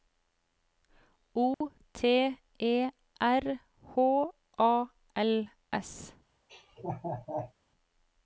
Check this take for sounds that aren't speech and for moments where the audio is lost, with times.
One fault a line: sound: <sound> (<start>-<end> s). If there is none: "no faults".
sound: dropout (1.5-1.6 s)
sound: laugh (6.5-7.5 s)